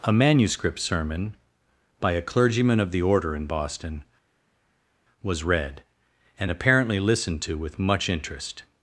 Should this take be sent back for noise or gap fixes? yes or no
no